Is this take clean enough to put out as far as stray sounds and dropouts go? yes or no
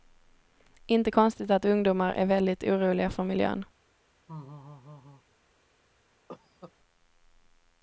no